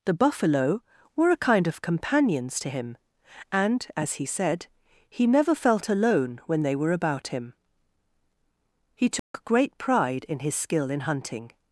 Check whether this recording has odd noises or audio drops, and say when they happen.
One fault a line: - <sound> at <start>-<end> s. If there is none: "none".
- dropout at 9.2-9.3 s